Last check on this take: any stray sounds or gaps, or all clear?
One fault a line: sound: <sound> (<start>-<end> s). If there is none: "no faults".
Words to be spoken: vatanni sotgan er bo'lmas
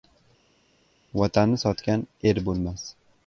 no faults